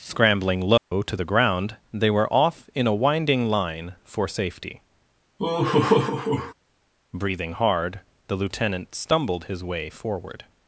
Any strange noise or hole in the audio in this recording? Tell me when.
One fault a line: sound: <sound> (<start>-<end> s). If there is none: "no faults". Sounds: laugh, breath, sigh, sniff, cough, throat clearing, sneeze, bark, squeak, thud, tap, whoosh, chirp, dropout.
sound: dropout (0.8-0.9 s)
sound: laugh (5.4-6.5 s)